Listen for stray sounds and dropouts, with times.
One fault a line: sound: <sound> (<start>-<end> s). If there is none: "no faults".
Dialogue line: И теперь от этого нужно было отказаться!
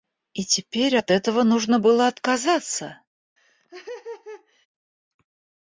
sound: laugh (3.4-4.7 s)